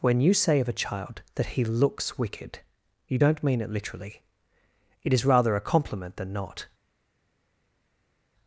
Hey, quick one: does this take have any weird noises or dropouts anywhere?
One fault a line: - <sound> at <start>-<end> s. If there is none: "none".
none